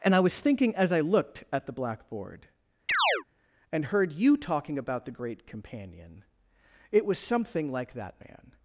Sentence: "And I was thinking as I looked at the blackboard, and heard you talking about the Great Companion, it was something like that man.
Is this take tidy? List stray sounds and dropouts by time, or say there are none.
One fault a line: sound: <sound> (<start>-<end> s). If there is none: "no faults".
sound: chirp (2.9-3.2 s)